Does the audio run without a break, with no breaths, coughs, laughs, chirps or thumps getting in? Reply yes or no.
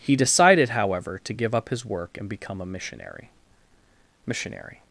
yes